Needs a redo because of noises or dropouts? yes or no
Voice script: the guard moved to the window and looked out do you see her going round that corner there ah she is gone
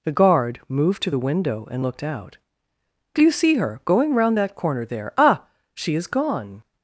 no